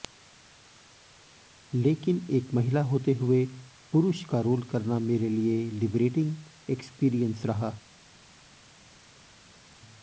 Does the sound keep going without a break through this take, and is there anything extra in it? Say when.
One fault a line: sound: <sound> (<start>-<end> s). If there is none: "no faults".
no faults